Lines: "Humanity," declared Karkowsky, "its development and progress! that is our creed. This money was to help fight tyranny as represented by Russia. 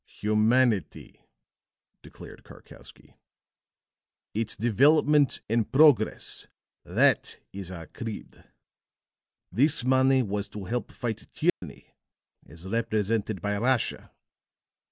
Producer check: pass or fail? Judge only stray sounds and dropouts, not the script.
fail